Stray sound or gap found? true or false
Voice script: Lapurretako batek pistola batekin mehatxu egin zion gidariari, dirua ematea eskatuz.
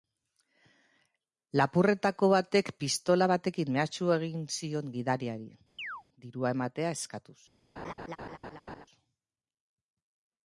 true